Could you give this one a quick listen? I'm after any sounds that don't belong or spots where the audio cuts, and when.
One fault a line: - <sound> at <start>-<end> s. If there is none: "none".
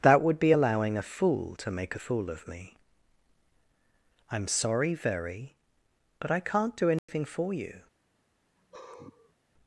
- dropout at 7.0-7.1 s
- sigh at 8.6-9.3 s